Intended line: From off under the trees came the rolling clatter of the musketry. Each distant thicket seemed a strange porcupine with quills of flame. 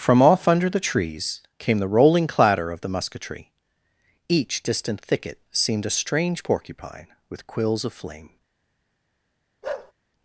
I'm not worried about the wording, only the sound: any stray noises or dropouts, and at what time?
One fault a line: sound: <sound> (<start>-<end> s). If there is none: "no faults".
sound: bark (9.6-9.9 s)